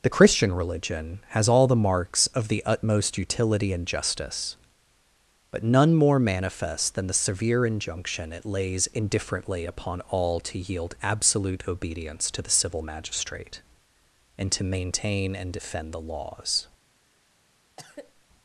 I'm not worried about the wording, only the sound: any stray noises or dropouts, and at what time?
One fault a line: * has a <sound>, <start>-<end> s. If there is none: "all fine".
* has a cough, 17.8-18.2 s